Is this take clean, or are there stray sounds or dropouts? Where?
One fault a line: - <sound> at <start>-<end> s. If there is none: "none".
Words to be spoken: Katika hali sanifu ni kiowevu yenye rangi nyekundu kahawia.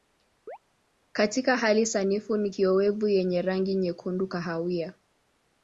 - chirp at 0.5-0.6 s